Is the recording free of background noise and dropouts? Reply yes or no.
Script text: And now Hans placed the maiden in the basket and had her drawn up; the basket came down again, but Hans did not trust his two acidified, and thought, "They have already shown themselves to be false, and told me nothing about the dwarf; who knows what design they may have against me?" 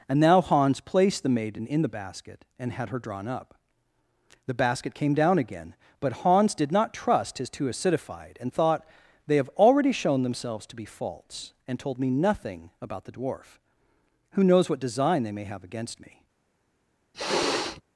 no